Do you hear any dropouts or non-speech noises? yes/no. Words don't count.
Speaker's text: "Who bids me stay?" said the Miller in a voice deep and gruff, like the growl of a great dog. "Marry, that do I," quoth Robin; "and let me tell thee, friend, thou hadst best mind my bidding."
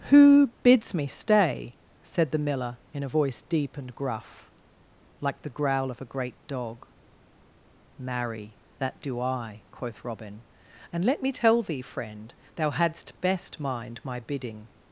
no